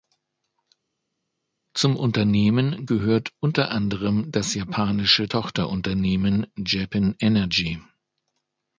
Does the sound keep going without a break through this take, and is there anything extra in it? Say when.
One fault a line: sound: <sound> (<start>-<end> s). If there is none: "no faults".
no faults